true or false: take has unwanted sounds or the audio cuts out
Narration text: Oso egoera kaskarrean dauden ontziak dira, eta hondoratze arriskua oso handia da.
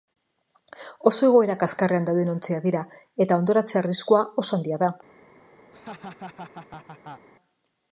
true